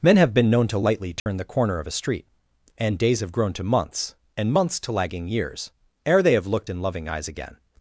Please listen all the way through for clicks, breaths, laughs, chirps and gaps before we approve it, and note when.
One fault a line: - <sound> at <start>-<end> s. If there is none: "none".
- dropout at 1.2-1.3 s